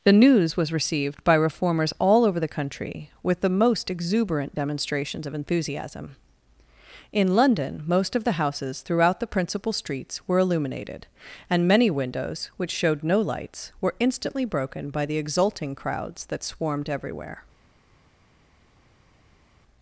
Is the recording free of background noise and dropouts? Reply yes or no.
yes